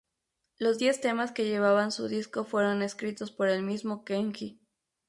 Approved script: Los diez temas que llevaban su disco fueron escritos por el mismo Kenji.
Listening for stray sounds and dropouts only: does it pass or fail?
pass